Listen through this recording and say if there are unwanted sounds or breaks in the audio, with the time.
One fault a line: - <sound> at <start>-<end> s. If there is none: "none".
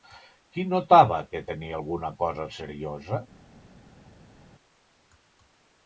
none